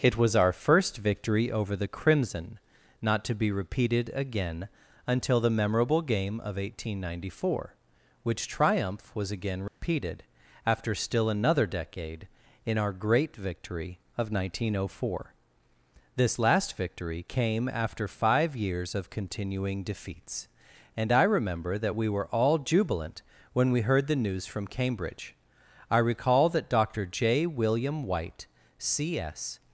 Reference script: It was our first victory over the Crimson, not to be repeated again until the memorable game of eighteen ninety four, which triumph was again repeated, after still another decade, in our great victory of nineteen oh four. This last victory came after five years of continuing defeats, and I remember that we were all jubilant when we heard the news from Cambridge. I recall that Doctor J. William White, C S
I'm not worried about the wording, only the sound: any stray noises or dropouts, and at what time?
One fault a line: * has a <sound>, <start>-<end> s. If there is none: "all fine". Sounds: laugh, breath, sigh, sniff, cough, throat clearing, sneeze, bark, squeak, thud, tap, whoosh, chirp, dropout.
* has a dropout, 9.7-9.8 s